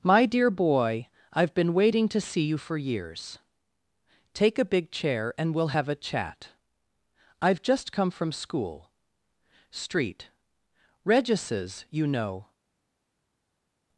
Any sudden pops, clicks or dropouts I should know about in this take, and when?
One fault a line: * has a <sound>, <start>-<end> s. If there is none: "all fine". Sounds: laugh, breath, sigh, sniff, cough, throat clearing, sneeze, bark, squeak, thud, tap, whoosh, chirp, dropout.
all fine